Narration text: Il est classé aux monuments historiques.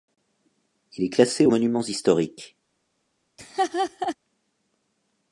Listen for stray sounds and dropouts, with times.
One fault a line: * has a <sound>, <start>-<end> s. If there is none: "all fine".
* has a laugh, 3.4-4.2 s